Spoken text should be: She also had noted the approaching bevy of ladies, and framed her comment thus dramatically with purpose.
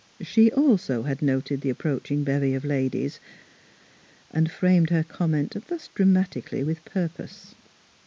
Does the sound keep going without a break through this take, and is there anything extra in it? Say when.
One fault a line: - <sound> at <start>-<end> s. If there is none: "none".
none